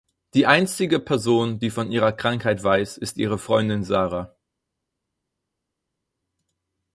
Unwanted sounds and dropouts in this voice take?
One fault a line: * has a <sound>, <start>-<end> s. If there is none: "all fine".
all fine